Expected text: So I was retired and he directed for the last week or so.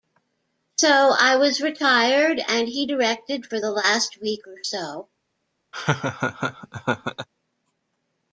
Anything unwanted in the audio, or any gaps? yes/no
yes